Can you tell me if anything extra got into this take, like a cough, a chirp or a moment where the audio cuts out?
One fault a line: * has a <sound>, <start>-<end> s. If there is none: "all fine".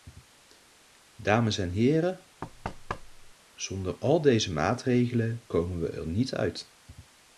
* has a thud, 2.4-3.3 s